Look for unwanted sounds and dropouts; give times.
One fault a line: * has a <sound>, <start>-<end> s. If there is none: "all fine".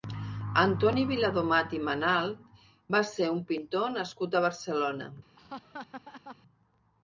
* has a laugh, 5.4-6.4 s